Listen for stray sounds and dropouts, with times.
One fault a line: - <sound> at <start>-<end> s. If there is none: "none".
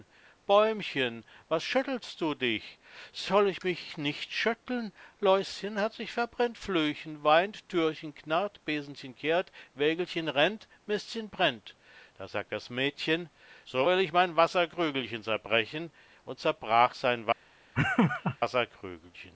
- laugh at 17.7-18.4 s